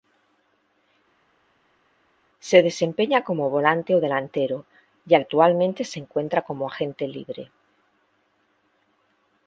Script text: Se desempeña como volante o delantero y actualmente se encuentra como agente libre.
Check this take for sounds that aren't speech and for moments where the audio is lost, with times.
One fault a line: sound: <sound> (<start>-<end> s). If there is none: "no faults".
no faults